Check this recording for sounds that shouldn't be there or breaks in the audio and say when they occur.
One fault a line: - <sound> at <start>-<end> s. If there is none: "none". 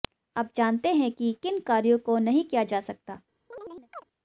- chirp at 3.5-4.0 s